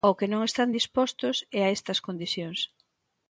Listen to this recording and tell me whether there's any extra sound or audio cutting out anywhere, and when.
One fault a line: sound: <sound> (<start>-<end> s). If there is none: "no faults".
no faults